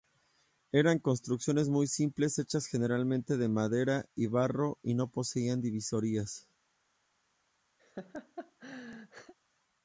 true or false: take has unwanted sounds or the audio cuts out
true